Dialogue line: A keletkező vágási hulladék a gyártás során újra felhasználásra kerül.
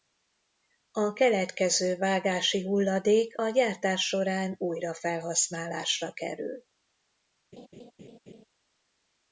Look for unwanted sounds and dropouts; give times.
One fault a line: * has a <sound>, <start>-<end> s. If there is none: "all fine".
* has a laugh, 7.5-8.4 s